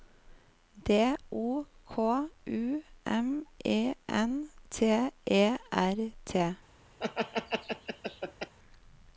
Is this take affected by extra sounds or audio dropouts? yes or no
yes